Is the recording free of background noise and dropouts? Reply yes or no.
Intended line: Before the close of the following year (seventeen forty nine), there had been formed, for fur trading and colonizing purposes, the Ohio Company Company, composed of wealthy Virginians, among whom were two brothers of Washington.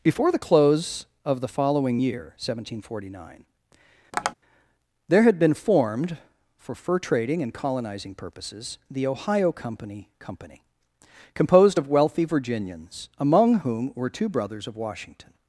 no